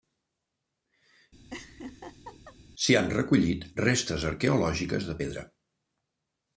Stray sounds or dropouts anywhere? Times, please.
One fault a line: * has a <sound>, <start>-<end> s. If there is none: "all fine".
* has a laugh, 1.5-2.6 s